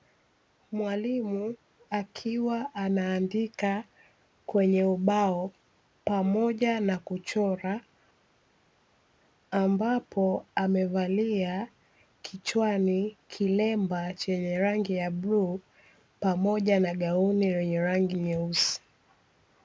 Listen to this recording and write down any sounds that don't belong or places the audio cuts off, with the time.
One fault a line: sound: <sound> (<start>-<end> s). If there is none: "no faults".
no faults